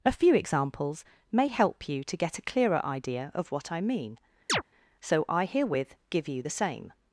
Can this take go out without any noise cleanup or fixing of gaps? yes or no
no